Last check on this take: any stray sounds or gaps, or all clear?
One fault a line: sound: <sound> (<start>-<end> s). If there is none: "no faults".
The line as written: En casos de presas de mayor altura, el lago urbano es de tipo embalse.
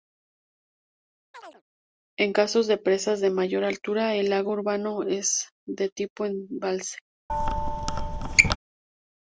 sound: chirp (1.3-1.6 s)
sound: squeak (7.3-8.6 s)